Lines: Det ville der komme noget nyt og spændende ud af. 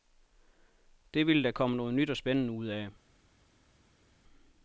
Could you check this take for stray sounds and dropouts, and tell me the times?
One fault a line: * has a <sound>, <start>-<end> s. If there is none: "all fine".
all fine